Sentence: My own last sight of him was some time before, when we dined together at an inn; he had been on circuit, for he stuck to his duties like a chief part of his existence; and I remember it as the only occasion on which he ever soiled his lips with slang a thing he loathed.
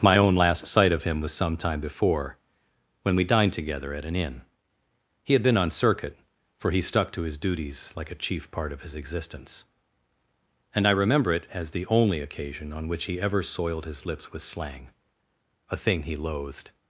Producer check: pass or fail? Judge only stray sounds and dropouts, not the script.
pass